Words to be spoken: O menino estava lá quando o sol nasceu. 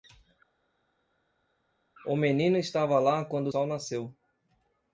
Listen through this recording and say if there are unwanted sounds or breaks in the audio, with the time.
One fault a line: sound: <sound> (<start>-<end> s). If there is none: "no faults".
no faults